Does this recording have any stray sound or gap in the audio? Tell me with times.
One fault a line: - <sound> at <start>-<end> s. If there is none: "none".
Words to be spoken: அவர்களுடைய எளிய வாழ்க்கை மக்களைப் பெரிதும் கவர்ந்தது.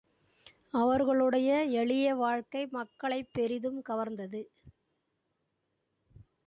none